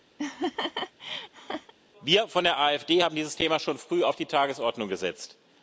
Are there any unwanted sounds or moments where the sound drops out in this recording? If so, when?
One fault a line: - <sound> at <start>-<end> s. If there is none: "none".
- laugh at 0.2-1.7 s